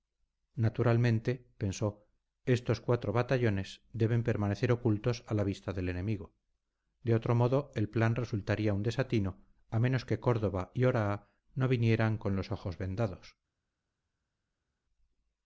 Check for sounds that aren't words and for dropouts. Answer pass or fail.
pass